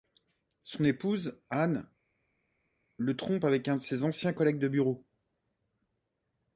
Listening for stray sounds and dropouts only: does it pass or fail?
pass